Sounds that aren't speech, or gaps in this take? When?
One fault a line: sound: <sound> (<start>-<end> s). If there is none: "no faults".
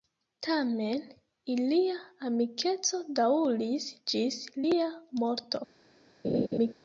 sound: laugh (6.2-6.7 s)